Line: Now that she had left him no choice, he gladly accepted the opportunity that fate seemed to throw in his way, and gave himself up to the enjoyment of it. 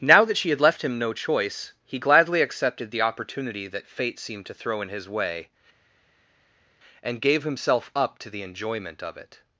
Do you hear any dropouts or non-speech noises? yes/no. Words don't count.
no